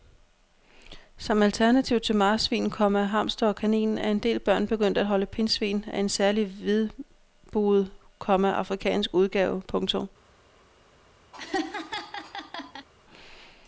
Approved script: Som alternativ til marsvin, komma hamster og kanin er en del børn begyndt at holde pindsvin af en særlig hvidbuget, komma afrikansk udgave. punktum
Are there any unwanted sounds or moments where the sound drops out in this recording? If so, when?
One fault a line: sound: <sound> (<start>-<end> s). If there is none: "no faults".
sound: laugh (11.3-12.9 s)